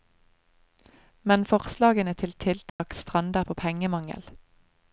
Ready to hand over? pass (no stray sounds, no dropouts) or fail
fail